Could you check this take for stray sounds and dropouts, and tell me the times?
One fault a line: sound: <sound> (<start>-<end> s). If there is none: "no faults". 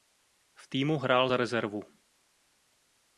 no faults